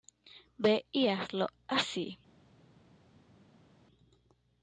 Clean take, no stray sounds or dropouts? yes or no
yes